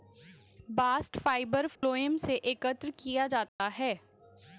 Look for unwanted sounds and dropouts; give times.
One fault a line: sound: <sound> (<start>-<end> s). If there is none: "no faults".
sound: dropout (1.8-1.8 s)
sound: dropout (3.5-3.6 s)